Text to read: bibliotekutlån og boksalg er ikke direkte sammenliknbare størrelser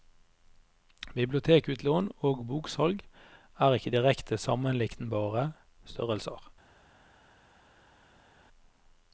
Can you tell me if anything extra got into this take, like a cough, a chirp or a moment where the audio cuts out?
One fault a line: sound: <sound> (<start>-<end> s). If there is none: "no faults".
no faults